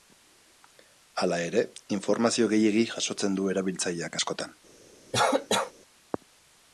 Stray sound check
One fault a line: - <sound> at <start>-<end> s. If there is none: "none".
- cough at 5.1-5.7 s